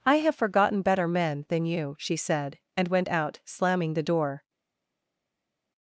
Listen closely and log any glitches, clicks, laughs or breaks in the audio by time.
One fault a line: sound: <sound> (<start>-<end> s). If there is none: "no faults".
no faults